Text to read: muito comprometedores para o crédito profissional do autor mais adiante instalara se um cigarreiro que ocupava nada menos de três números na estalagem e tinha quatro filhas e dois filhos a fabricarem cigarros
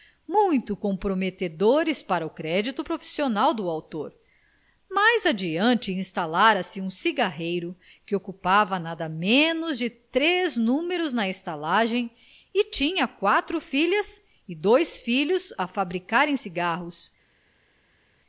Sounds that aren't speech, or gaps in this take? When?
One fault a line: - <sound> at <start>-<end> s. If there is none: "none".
none